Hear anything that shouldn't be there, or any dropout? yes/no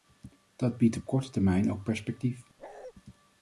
yes